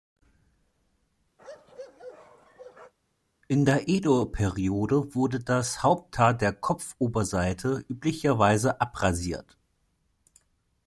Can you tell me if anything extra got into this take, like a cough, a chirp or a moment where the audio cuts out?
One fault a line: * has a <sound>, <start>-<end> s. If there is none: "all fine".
* has a bark, 1.4-2.9 s